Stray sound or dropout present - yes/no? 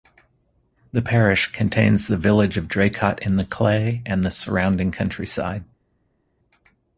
no